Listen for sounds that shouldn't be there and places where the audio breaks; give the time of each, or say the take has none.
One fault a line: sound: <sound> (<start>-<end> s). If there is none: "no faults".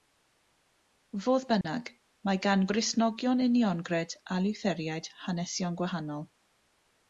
sound: dropout (1.6-1.6 s)